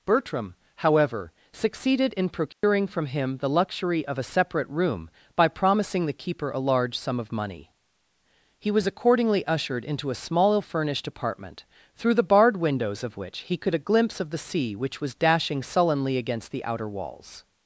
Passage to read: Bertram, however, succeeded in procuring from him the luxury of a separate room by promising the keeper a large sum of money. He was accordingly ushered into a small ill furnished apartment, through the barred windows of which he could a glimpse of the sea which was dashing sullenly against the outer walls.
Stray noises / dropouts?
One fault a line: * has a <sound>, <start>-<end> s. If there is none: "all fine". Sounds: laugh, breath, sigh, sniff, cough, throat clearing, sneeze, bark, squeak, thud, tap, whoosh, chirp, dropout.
* has a dropout, 2.5-2.6 s